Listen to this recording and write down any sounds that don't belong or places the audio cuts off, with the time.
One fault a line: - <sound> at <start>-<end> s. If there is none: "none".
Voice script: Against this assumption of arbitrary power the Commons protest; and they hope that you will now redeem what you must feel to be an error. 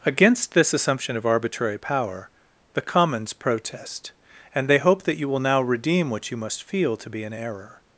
none